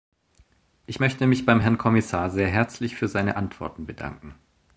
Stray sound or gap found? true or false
false